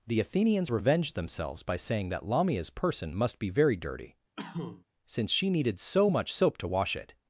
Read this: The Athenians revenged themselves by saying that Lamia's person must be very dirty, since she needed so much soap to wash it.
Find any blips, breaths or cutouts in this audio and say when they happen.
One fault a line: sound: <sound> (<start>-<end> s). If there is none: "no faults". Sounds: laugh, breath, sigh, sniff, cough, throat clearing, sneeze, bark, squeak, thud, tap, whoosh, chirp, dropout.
sound: cough (4.4-4.8 s)